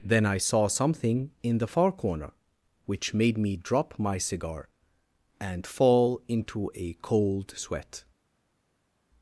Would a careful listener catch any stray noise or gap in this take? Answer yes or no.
no